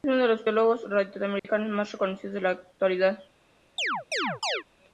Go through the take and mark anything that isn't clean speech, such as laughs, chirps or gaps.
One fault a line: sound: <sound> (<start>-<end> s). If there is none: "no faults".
sound: dropout (1.4-1.4 s)
sound: chirp (3.8-4.6 s)